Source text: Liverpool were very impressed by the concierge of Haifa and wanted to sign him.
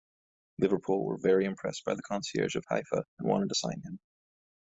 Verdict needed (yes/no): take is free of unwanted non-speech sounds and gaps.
yes